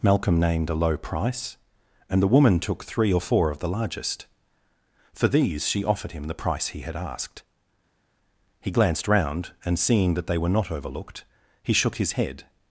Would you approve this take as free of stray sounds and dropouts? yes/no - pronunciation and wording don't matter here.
yes